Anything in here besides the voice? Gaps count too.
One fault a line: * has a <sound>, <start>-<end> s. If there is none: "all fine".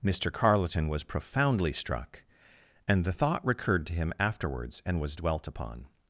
all fine